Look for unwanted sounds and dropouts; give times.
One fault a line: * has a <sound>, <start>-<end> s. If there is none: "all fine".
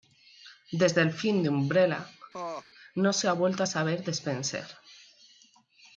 * has a laugh, 2.3-2.7 s